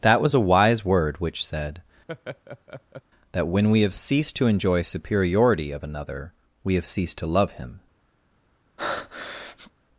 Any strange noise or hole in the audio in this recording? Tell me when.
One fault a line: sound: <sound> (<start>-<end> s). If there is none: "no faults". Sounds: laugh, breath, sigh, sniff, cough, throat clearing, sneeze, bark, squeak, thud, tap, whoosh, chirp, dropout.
sound: laugh (2.1-3.0 s)
sound: breath (8.8-9.7 s)